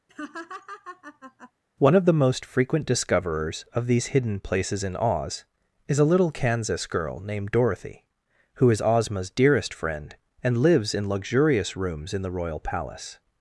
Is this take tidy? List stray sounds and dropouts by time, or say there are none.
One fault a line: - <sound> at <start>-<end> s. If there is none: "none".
- laugh at 0.1-1.5 s